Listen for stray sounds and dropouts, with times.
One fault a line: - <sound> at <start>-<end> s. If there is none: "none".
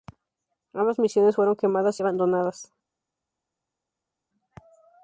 none